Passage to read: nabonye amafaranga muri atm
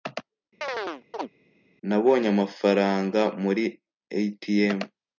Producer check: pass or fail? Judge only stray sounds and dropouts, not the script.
fail